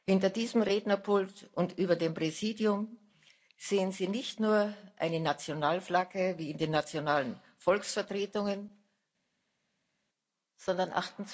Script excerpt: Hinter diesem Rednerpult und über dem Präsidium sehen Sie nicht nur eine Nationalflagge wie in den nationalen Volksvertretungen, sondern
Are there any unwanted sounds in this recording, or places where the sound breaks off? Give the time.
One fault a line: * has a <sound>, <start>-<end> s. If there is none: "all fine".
all fine